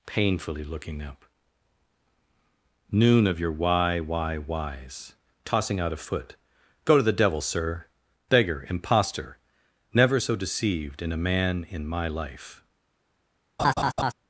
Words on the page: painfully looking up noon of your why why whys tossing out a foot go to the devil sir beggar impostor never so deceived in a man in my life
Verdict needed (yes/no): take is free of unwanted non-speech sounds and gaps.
no